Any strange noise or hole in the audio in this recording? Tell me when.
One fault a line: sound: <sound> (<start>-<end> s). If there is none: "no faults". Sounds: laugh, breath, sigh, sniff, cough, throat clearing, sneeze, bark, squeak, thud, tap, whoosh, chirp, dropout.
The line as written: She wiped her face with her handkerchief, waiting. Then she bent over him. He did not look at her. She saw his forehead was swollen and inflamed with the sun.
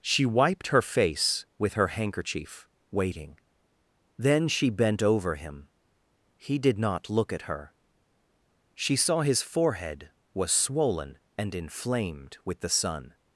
no faults